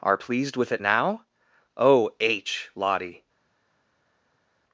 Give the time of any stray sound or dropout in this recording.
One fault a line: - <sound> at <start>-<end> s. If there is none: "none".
none